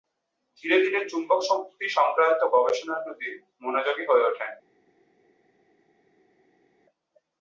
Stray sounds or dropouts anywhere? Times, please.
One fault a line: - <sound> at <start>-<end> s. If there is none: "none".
none